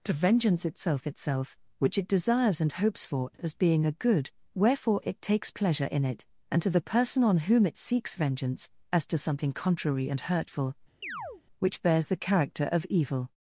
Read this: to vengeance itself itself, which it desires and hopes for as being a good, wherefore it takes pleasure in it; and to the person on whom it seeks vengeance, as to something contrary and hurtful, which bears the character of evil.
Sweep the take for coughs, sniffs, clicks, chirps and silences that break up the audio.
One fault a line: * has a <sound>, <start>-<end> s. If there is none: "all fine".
* has a chirp, 11.0-11.4 s